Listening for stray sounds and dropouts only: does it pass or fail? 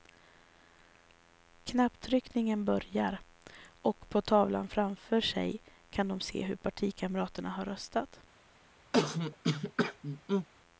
fail